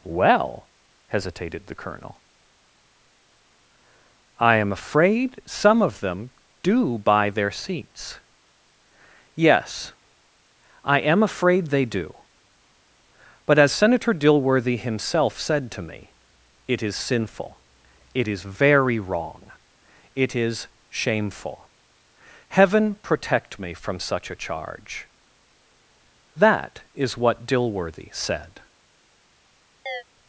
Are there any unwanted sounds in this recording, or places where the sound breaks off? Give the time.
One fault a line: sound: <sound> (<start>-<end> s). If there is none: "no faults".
sound: chirp (29.9-30.0 s)